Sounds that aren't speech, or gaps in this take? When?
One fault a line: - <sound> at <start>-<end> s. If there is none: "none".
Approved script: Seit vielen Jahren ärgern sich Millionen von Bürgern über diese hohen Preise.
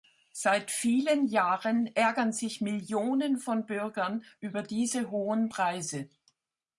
none